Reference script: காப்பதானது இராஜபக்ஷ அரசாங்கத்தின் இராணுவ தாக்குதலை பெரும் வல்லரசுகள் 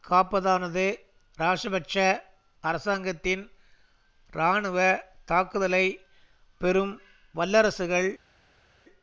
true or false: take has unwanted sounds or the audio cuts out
false